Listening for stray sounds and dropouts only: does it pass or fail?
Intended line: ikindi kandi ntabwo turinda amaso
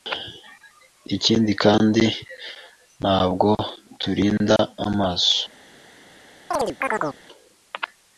fail